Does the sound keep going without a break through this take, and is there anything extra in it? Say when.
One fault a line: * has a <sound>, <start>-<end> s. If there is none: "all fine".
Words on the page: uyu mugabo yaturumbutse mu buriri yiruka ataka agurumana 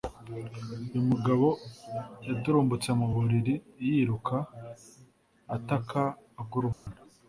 * has a dropout, 6.7-6.9 s